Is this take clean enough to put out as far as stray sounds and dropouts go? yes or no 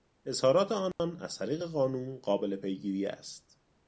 no